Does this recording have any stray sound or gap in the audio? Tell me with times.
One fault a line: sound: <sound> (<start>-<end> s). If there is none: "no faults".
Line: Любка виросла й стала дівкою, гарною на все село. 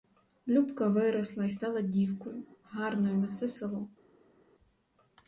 no faults